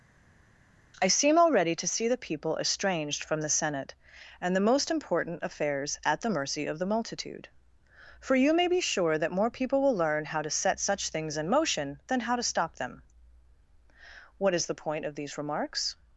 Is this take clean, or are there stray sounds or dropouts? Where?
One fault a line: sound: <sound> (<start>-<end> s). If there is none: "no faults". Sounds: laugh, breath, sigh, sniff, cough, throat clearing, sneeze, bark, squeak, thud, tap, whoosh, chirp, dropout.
no faults